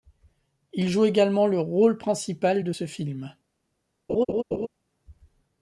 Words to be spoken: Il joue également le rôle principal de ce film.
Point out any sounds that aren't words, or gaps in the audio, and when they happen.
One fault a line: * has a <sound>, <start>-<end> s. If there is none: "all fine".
* has a laugh, 4.1-4.7 s